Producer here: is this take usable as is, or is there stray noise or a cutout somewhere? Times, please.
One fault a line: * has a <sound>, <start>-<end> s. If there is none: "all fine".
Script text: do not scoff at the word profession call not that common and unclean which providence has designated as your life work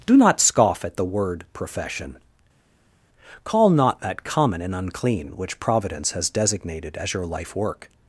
all fine